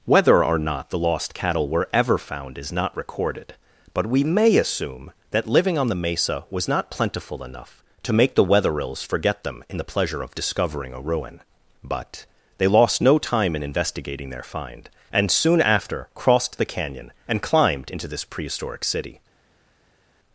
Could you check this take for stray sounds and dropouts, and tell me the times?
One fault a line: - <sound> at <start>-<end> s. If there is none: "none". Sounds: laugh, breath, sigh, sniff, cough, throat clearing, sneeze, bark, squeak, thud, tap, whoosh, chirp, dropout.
none